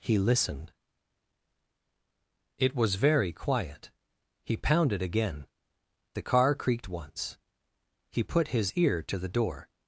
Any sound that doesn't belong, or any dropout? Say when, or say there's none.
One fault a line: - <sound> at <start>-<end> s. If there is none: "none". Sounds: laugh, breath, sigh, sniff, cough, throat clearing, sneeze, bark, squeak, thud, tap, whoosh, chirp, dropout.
none